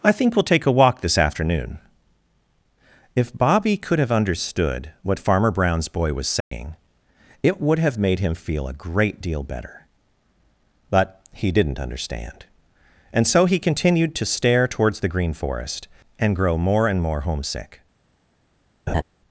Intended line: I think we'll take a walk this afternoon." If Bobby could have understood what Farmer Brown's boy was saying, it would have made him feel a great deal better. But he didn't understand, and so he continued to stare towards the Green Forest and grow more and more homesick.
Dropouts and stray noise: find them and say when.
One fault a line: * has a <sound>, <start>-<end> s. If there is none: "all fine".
* has a dropout, 6.4-6.5 s
* has a laugh, 18.9-19.0 s